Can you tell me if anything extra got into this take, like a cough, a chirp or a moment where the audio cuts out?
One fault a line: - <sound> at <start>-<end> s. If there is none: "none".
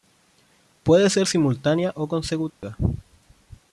- dropout at 2.5-2.6 s